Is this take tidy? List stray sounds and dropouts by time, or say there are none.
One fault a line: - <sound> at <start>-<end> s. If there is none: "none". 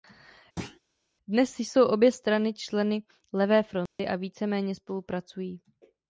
- thud at 0.6-0.8 s
- dropout at 3.9-4.0 s